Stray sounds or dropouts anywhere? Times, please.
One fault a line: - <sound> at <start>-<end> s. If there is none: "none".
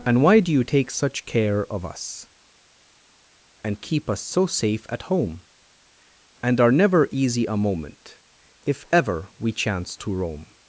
none